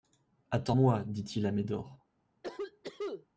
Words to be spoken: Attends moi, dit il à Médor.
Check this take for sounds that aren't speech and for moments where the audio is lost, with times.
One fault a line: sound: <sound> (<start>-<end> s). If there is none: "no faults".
sound: cough (2.4-3.3 s)